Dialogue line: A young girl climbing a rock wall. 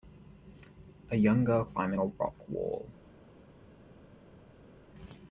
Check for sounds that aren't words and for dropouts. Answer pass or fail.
pass